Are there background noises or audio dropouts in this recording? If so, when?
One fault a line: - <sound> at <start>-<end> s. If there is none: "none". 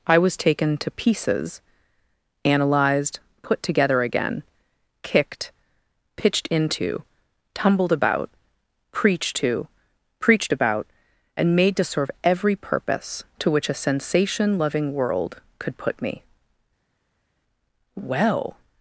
none